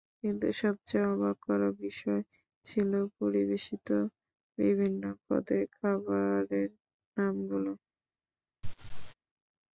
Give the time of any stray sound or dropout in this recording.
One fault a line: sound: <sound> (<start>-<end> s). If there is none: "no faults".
sound: laugh (8.6-9.1 s)